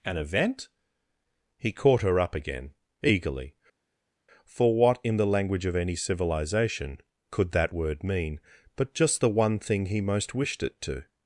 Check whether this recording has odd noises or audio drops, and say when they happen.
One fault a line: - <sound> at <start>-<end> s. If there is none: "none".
none